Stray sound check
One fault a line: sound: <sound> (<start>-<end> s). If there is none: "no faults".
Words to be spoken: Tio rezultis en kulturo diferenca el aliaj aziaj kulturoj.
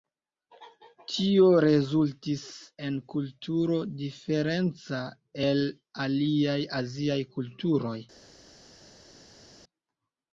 no faults